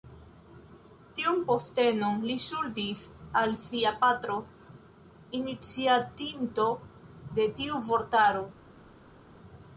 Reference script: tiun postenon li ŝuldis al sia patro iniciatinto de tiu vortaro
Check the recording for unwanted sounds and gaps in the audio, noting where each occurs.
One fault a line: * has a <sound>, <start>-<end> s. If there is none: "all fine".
all fine